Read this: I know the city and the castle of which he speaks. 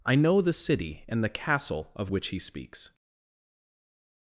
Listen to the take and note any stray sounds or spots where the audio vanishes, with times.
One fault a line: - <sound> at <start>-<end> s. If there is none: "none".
none